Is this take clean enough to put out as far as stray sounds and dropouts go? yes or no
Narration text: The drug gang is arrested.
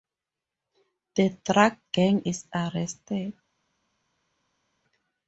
yes